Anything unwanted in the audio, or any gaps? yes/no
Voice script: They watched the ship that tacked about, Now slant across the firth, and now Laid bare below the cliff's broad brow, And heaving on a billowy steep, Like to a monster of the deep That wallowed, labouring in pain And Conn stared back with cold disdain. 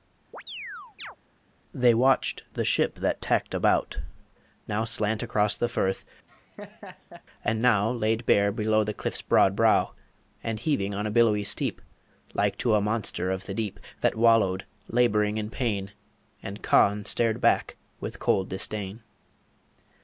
yes